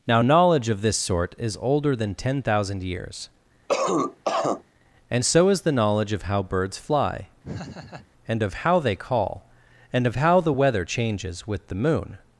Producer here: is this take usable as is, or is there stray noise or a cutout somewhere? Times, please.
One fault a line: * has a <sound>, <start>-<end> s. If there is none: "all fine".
* has a cough, 3.7-4.6 s
* has a laugh, 7.4-8.1 s